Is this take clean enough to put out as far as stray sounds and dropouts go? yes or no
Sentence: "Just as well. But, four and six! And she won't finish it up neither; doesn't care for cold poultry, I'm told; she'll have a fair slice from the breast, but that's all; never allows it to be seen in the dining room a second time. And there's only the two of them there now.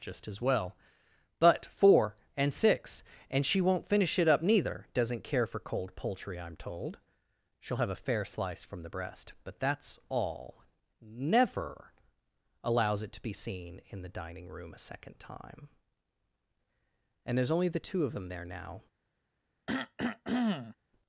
no